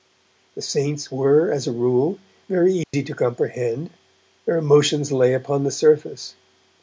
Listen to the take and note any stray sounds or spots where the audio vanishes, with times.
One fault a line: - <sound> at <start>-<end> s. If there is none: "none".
- dropout at 2.8-2.9 s